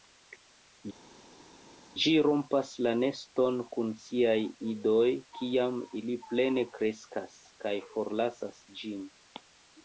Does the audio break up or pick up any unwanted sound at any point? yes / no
no